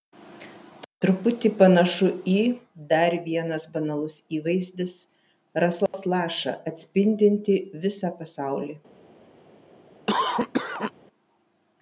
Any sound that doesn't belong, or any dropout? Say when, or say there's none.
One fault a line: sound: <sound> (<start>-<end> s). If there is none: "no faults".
sound: dropout (5.9-5.9 s)
sound: cough (10.1-10.9 s)